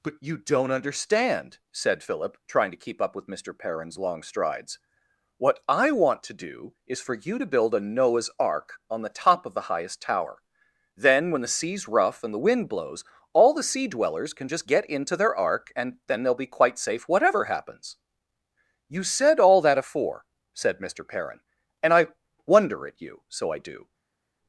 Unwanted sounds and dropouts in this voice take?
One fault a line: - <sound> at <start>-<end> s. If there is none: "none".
none